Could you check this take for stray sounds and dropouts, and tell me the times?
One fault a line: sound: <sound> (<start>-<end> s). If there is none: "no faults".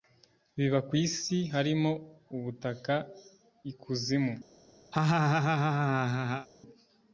sound: laugh (4.9-6.5 s)